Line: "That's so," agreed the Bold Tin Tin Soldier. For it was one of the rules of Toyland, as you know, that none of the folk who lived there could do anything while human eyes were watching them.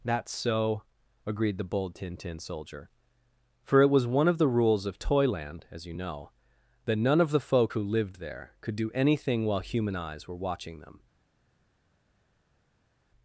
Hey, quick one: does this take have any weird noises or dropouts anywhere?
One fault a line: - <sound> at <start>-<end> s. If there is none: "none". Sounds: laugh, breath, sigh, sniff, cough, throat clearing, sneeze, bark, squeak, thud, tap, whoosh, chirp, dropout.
none